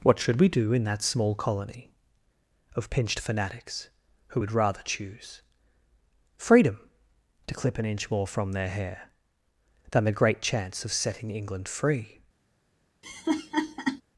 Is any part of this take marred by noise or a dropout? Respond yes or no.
yes